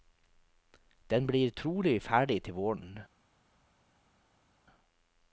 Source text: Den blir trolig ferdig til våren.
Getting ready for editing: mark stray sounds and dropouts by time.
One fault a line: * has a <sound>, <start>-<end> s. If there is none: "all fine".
all fine